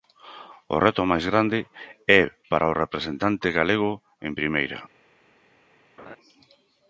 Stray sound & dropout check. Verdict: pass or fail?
fail